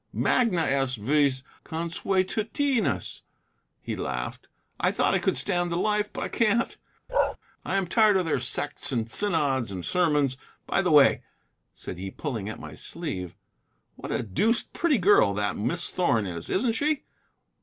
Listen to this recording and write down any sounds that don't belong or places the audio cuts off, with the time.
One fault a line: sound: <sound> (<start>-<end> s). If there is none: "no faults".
sound: bark (7.1-7.4 s)